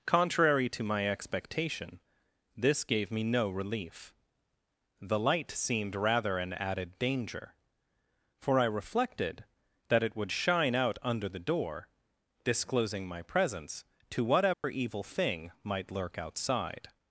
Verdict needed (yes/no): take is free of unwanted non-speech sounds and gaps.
no